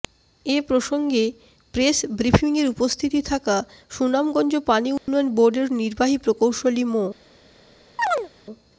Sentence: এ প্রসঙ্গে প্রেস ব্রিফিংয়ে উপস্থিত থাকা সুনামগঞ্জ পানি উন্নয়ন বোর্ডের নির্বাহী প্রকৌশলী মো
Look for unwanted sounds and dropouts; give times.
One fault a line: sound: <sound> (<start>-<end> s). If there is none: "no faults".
sound: dropout (5.0-5.1 s)
sound: chirp (8.0-8.3 s)